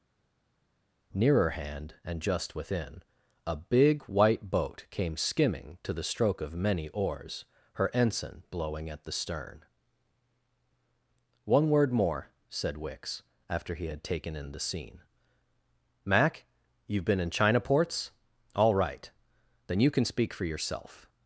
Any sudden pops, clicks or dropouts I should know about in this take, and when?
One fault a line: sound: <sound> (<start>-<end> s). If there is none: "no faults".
no faults